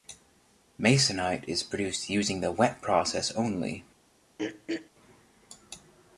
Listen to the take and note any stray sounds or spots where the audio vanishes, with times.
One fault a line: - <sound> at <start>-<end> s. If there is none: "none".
- throat clearing at 4.4-4.9 s